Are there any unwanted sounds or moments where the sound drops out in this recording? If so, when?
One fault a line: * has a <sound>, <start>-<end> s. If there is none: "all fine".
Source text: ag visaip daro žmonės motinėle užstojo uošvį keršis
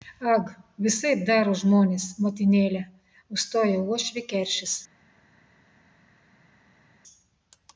all fine